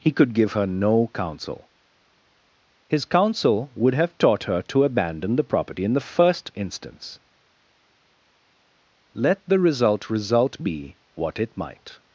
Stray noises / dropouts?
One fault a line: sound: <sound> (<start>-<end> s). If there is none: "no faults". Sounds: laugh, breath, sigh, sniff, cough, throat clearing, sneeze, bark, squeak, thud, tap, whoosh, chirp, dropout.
no faults